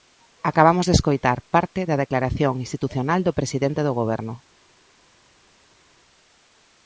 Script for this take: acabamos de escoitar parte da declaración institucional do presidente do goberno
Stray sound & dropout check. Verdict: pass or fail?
pass